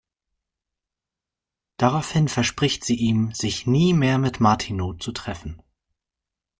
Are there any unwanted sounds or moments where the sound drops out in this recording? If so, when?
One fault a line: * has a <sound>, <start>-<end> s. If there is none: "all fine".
all fine